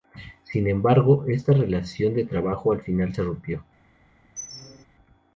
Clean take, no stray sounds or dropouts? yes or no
no